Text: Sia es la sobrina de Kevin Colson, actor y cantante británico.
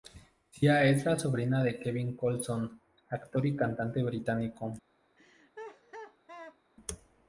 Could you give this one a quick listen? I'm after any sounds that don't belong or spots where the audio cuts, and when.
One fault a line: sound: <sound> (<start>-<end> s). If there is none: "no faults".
sound: laugh (5.2-6.6 s)